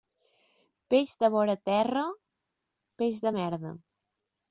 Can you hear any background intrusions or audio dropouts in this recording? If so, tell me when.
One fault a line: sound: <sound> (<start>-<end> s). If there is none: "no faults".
no faults